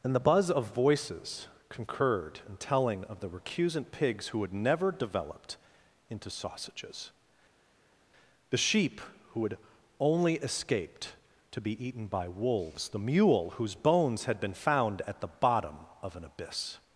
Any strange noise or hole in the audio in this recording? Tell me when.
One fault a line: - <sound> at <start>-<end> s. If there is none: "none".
none